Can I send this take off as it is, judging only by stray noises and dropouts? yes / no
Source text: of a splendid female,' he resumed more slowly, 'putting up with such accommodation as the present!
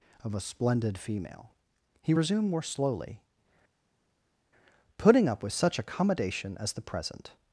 yes